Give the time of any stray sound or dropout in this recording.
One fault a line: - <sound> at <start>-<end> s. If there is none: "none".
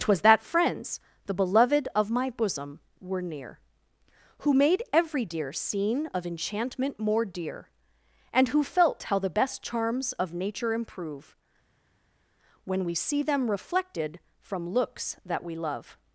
none